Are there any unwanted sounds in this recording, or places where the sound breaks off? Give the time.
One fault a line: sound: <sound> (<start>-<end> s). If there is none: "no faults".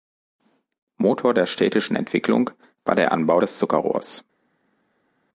no faults